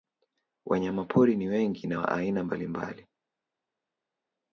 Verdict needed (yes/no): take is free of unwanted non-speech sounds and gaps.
yes